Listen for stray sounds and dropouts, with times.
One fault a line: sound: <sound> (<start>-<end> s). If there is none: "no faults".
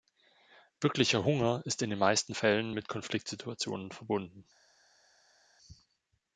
no faults